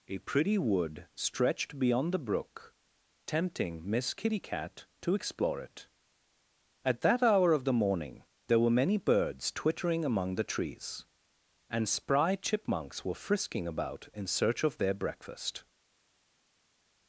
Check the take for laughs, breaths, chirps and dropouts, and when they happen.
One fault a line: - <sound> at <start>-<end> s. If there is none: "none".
none